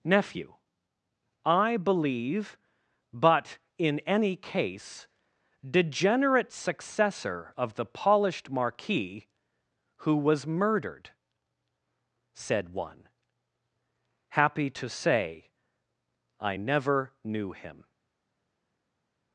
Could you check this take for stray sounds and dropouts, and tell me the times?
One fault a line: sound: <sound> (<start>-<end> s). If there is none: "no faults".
no faults